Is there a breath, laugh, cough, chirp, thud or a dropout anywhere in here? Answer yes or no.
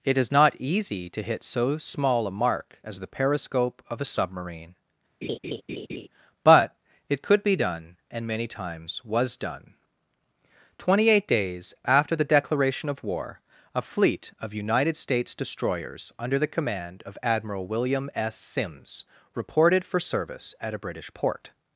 yes